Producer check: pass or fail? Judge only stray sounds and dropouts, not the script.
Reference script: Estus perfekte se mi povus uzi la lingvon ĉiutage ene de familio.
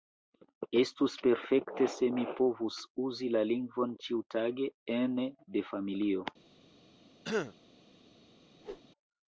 fail